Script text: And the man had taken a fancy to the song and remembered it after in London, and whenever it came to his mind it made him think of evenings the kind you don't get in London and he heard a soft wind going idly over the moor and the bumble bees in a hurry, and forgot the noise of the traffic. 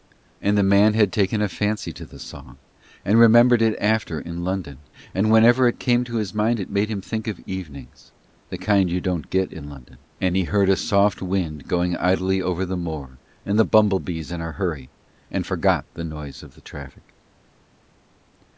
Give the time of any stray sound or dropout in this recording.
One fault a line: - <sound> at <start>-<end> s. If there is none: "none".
none